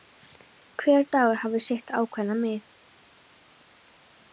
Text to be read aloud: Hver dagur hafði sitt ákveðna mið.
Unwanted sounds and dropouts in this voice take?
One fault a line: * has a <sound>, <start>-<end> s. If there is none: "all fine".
all fine